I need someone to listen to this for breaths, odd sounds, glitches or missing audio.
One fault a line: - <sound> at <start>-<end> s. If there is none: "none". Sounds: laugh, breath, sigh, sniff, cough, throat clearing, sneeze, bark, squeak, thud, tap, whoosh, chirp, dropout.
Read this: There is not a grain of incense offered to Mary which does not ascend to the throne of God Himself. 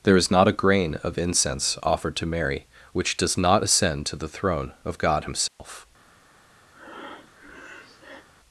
- dropout at 5.5-5.6 s
- breath at 6.7-8.3 s